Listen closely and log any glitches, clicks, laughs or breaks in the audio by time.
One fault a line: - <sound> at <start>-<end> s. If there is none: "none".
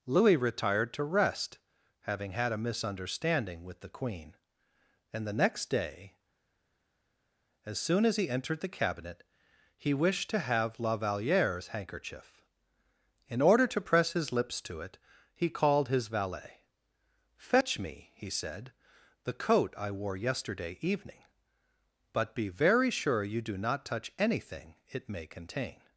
none